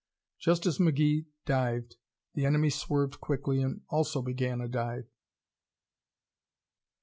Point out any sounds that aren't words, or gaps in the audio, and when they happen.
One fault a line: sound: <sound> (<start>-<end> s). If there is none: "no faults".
no faults